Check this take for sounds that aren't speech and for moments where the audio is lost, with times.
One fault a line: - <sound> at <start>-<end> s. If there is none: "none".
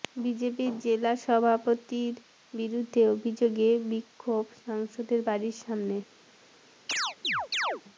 - chirp at 6.9-7.8 s